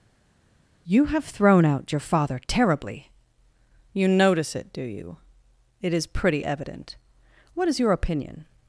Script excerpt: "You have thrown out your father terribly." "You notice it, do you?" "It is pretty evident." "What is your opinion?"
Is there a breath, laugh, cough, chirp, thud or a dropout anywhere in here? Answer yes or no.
no